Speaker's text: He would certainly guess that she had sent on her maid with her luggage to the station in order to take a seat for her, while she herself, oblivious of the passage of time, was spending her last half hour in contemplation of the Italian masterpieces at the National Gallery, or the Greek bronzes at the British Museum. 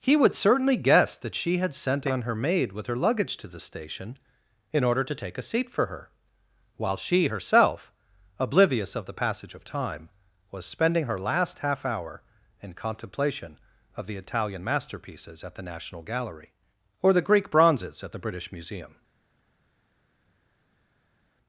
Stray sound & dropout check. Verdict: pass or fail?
pass